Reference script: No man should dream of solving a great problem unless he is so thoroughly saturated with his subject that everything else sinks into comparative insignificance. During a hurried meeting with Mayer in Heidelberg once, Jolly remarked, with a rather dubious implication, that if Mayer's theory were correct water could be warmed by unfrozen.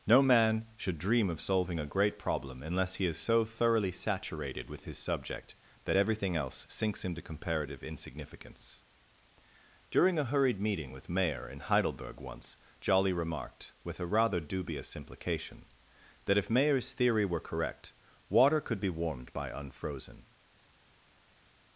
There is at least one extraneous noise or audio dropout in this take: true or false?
false